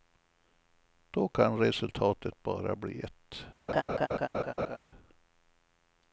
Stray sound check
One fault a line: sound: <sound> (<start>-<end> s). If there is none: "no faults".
sound: laugh (3.7-4.8 s)